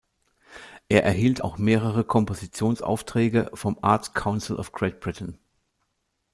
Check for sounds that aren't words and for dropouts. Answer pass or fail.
pass